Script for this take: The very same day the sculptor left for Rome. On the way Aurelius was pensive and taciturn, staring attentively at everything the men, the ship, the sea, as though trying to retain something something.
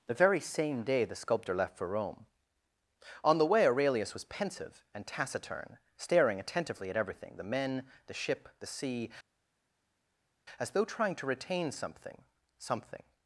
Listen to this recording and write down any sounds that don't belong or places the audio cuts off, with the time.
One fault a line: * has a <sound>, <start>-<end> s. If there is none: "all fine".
all fine